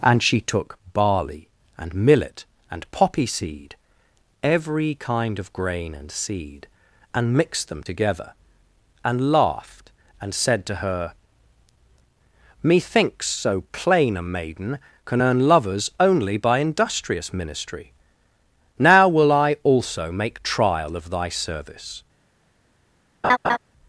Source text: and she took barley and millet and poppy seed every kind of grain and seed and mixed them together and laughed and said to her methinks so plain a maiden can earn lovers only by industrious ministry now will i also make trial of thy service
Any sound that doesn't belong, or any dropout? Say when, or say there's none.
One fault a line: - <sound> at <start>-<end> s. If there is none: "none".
- laugh at 23.2-23.6 s